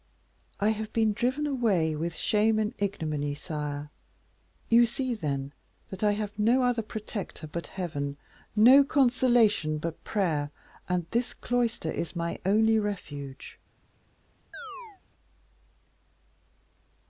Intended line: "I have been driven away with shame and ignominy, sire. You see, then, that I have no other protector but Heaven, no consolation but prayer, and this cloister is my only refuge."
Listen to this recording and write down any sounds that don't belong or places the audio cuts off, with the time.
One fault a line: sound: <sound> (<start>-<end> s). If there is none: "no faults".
sound: chirp (14.5-15.0 s)